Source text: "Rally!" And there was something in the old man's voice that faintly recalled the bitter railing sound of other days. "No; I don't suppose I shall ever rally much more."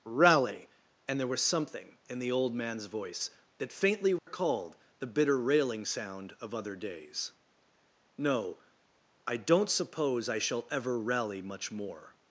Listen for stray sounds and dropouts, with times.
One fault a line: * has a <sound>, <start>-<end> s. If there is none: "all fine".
* has a dropout, 4.2-4.3 s